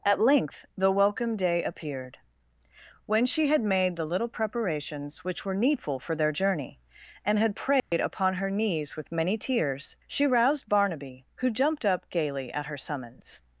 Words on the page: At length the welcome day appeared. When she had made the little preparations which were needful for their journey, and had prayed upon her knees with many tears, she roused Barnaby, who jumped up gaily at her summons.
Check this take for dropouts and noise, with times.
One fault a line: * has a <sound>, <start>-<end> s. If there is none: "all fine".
* has a dropout, 7.8-7.9 s